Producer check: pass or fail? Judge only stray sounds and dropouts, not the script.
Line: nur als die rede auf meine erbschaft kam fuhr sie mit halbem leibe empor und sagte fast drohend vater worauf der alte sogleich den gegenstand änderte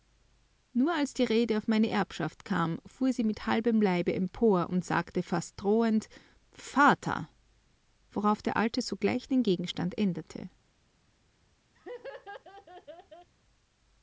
fail